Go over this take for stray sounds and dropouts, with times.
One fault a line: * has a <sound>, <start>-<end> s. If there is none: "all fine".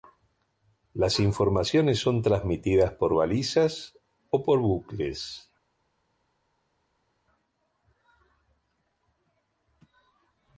all fine